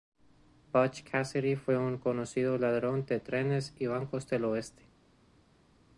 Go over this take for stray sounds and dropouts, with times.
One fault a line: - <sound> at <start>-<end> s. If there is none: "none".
none